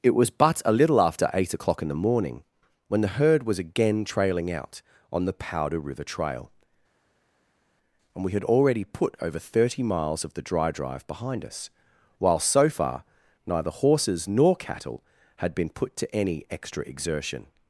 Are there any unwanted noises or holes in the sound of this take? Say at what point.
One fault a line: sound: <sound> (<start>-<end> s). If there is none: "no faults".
no faults